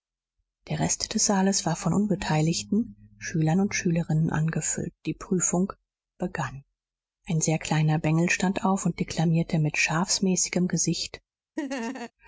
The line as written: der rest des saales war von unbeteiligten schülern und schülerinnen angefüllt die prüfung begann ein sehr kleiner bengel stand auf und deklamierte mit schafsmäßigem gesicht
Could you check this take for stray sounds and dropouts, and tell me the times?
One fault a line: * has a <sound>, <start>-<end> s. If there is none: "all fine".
* has a laugh, 11.6-12.1 s